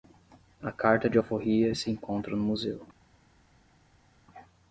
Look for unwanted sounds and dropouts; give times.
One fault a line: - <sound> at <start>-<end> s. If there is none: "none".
none